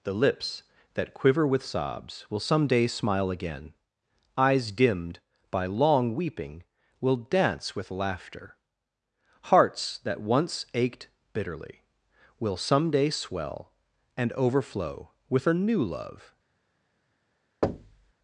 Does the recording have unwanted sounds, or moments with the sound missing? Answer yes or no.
yes